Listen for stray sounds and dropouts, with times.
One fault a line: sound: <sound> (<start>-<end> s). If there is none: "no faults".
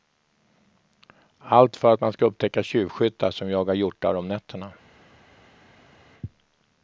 no faults